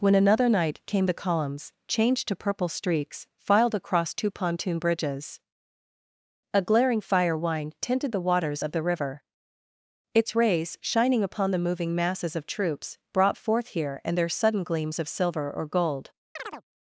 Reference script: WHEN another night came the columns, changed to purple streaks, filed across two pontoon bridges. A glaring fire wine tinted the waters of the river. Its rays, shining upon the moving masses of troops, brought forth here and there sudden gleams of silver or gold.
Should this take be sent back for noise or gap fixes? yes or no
yes